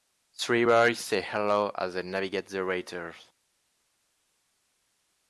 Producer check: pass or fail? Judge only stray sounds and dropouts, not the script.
pass